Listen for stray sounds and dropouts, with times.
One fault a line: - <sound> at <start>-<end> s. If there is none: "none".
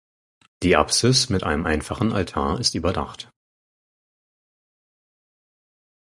none